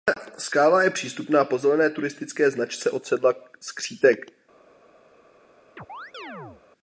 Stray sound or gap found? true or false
true